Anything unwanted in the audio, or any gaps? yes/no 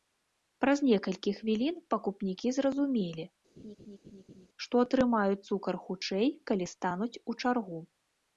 yes